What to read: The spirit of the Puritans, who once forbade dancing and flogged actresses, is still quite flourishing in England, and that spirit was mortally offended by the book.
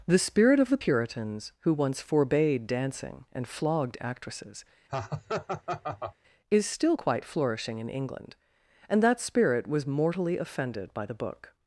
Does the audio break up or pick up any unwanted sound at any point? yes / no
yes